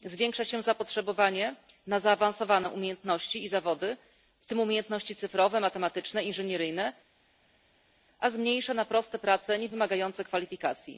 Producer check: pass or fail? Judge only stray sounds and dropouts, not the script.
pass